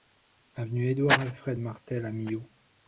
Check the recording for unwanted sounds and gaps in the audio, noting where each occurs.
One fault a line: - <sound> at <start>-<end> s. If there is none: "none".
none